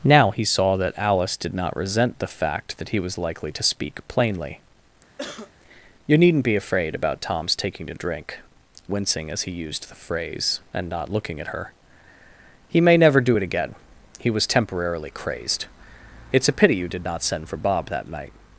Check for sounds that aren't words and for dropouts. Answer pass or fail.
fail